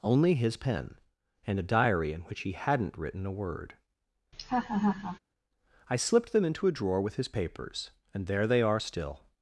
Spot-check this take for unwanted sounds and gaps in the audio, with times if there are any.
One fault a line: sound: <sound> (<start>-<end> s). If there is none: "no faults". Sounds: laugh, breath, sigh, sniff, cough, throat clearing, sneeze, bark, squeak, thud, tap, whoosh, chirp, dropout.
sound: laugh (4.3-5.2 s)